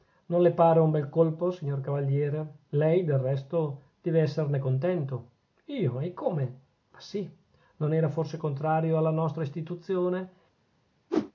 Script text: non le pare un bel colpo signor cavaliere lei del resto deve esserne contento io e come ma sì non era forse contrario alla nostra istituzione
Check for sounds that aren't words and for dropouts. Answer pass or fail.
fail